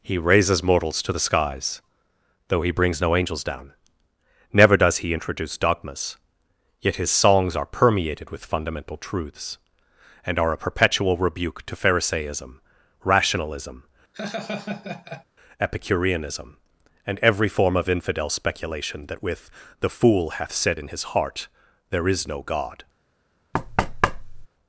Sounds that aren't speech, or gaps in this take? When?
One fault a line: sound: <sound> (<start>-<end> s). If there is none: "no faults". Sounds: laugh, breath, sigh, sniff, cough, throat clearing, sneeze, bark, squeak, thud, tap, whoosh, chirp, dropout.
sound: laugh (14.1-15.2 s)
sound: thud (23.5-24.5 s)